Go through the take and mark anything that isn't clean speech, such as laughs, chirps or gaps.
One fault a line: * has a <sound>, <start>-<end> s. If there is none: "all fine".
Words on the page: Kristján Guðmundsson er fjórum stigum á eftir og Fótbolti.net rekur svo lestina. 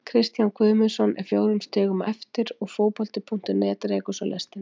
all fine